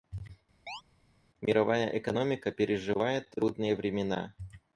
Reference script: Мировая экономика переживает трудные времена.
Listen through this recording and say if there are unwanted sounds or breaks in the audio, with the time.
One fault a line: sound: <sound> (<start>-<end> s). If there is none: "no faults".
sound: chirp (0.7-0.8 s)